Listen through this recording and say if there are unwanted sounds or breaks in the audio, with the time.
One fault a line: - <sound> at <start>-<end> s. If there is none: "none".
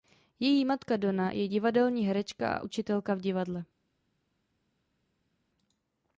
none